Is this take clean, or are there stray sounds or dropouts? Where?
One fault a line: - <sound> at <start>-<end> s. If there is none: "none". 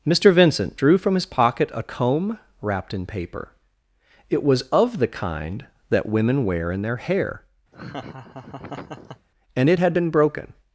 - laugh at 7.7-9.3 s